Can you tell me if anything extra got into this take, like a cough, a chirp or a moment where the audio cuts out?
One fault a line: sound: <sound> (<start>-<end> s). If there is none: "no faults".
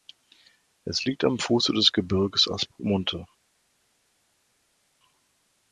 no faults